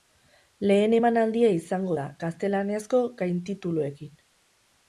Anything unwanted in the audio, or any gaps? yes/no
no